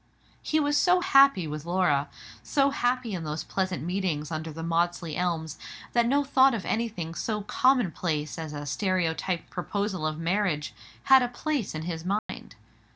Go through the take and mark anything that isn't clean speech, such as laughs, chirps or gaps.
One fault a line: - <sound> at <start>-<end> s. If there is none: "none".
- dropout at 12.2-12.3 s